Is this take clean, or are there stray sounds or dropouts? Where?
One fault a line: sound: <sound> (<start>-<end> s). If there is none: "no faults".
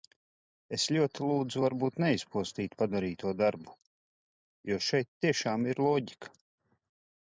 no faults